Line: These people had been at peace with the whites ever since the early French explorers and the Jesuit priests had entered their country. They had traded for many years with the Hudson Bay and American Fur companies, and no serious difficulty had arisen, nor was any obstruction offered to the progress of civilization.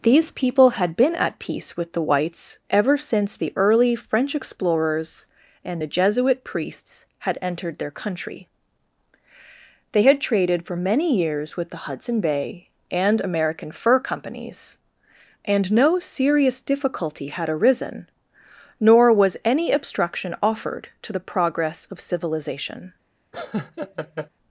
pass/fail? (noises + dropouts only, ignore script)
fail